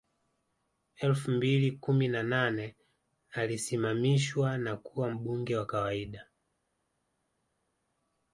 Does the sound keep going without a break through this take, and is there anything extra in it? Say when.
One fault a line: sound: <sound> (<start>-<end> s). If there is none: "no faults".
no faults